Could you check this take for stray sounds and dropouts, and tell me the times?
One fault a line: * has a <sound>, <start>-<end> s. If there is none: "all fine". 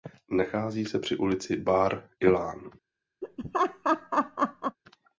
* has a laugh, 3.2-4.8 s